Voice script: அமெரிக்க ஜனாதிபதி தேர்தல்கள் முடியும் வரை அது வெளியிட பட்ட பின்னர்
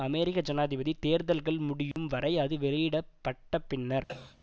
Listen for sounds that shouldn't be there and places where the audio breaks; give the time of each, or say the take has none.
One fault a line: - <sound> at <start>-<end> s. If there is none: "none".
- dropout at 1.9-2.0 s
- cough at 4.1-4.4 s